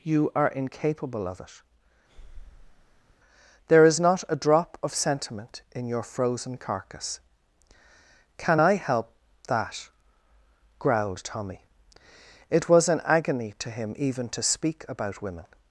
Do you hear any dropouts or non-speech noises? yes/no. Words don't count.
yes